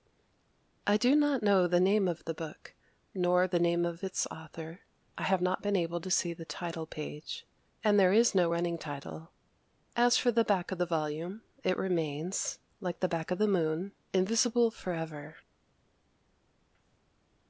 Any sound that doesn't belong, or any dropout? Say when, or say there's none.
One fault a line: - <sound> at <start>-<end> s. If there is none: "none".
none